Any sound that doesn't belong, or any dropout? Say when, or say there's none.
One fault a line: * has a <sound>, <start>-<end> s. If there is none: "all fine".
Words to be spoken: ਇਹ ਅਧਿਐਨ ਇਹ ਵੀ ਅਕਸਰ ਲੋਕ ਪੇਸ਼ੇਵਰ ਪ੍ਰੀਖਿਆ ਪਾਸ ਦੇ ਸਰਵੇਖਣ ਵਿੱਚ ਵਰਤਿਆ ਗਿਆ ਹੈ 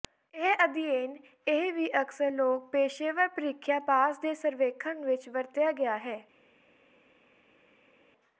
all fine